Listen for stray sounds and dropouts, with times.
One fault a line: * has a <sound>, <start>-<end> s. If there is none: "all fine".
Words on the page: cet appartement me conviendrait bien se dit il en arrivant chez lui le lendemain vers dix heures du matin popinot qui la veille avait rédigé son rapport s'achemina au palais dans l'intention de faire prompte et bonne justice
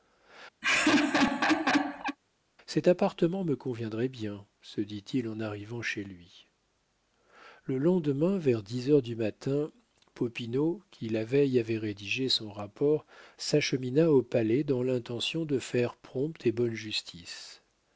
* has a laugh, 0.6-2.2 s